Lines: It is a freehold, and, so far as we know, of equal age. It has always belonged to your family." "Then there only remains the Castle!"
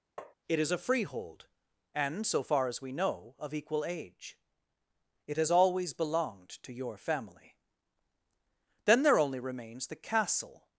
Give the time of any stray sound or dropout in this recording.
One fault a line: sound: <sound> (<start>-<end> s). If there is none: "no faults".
sound: tap (0.2-0.3 s)